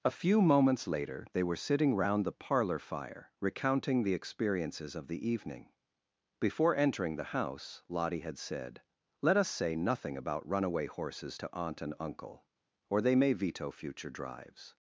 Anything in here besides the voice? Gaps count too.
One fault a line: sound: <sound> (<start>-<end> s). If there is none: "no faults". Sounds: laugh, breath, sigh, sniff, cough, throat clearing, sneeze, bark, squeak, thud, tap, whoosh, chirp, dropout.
no faults